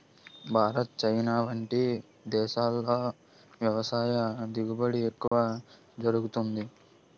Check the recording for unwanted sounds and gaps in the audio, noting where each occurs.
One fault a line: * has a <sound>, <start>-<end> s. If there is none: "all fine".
* has a dropout, 5.3-5.3 s